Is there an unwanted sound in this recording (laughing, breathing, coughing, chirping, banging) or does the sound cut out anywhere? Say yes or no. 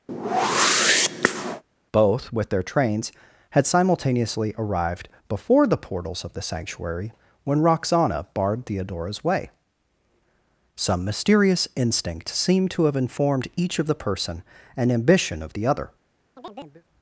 yes